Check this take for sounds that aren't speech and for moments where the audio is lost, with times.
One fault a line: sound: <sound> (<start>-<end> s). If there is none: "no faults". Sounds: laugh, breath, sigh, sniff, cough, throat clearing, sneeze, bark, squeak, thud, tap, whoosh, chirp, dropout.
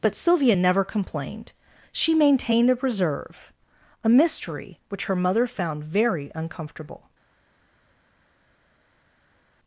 no faults